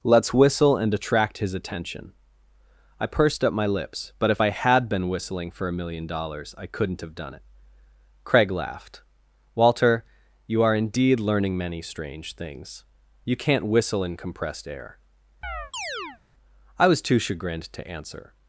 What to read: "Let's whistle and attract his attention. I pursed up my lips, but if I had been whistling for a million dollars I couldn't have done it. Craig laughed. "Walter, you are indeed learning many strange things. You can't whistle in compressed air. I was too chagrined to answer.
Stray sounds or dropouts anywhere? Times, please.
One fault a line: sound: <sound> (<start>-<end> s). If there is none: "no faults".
sound: chirp (15.4-16.2 s)